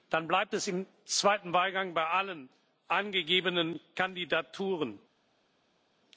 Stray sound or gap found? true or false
false